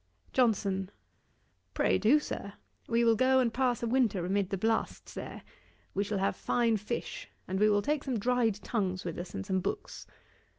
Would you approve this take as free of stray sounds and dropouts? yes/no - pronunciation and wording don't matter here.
yes